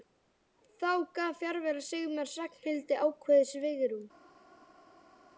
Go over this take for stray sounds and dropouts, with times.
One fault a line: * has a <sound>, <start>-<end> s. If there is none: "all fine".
all fine